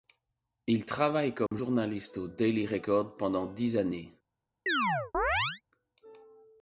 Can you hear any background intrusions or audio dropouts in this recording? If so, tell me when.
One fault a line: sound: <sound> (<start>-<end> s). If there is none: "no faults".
sound: dropout (1.5-1.5 s)
sound: chirp (4.7-5.6 s)